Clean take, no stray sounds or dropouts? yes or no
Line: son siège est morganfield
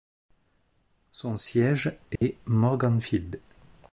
no